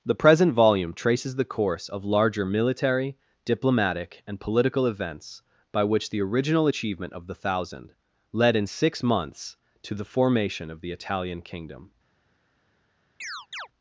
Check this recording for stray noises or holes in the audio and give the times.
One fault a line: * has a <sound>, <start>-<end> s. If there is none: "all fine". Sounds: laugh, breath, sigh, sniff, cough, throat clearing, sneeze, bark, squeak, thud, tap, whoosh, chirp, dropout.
* has a chirp, 13.2-13.7 s